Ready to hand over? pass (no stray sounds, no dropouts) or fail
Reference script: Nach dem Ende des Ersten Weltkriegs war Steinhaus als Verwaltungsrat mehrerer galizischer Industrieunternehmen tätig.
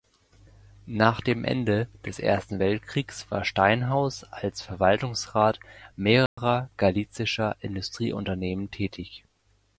fail